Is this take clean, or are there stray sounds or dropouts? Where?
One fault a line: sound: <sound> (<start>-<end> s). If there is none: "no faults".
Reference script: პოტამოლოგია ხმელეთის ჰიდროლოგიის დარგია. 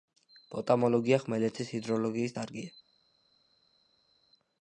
no faults